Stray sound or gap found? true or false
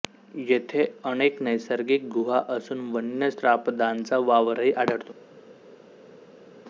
false